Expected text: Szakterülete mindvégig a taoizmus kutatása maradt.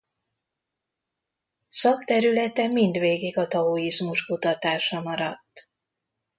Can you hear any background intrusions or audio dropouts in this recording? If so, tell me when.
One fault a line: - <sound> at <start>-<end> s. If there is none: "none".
none